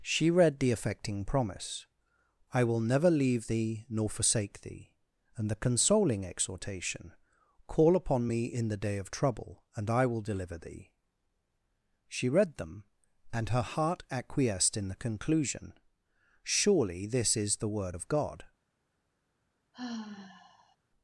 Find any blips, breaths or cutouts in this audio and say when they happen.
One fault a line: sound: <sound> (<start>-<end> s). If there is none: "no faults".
sound: sigh (19.7-20.8 s)